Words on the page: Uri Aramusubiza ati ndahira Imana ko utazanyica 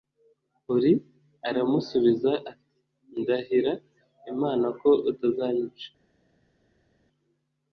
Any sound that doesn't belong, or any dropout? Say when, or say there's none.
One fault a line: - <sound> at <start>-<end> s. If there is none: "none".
none